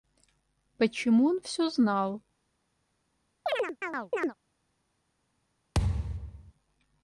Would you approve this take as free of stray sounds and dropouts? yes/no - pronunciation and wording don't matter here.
no